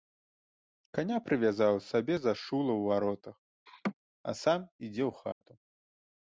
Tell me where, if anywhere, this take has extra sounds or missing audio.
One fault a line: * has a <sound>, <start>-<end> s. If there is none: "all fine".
* has a laugh, 3.7-3.9 s
* has a dropout, 5.3-5.4 s